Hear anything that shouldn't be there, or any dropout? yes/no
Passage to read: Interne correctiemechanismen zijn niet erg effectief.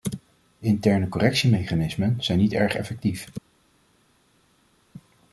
no